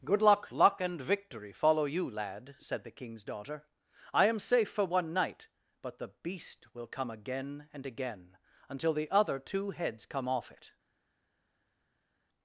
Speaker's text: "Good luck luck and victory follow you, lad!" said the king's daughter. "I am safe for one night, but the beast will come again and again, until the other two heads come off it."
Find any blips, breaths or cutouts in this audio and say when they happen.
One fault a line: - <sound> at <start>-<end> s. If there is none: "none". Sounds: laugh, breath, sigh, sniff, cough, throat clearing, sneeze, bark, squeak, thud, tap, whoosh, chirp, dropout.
none